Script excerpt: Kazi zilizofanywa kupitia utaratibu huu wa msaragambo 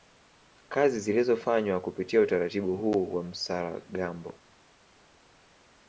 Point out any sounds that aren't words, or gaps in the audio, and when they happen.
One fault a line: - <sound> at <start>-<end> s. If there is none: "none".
none